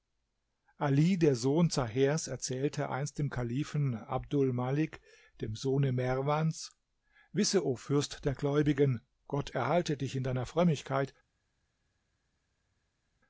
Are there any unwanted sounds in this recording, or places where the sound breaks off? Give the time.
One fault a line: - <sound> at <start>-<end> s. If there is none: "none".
none